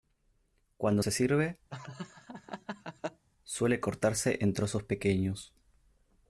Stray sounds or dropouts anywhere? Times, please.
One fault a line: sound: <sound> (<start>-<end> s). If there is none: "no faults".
sound: laugh (1.7-3.2 s)